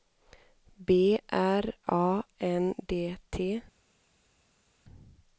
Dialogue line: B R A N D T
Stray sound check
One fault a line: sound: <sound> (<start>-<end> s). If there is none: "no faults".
no faults